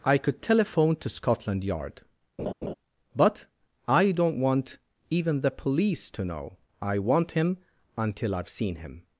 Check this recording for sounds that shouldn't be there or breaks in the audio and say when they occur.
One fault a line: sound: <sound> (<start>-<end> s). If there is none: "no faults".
sound: laugh (2.4-2.7 s)